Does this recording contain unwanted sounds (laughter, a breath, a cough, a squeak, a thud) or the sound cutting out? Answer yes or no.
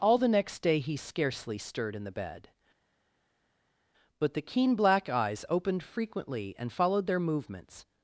no